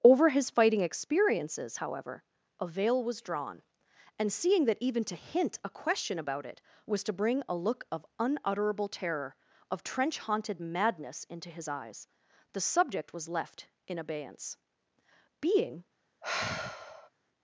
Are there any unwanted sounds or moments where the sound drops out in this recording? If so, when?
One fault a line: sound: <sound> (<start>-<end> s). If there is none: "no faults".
sound: sigh (16.2-17.1 s)